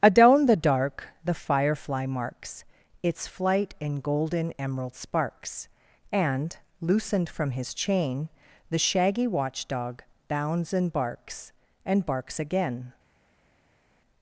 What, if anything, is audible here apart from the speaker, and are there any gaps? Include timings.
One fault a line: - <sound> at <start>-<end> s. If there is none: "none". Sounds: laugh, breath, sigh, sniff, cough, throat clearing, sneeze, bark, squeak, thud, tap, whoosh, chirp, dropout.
none